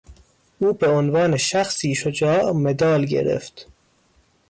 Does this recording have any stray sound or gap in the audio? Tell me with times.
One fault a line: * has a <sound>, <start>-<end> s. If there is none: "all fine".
all fine